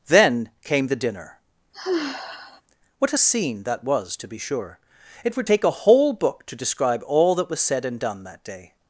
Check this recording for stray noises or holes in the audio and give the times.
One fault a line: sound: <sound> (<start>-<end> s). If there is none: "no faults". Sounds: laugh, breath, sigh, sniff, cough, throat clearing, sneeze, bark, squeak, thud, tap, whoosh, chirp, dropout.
sound: sigh (1.7-2.6 s)